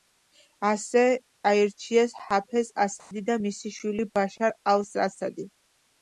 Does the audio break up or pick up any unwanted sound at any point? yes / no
yes